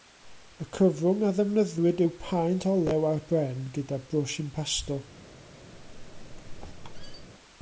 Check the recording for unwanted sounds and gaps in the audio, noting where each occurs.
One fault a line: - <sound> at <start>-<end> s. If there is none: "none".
- squeak at 5.7-7.3 s